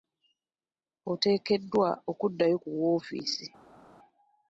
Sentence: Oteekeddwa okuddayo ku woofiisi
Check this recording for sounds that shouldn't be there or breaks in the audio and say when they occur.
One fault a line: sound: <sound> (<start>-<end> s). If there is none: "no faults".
no faults